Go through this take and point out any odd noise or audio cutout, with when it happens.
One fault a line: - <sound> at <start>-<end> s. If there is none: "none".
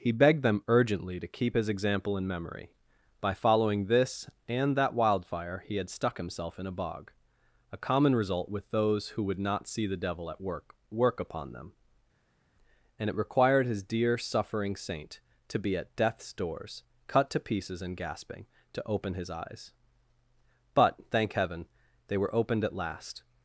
none